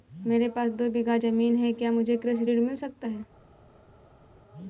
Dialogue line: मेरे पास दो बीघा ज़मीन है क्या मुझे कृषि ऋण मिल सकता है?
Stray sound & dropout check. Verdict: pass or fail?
pass